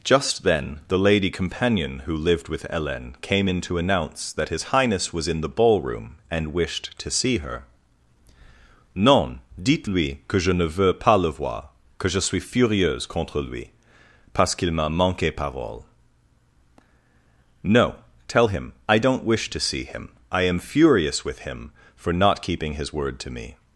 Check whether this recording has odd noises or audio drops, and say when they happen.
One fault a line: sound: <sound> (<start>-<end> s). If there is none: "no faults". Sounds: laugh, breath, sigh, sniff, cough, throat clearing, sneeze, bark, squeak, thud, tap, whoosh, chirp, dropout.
no faults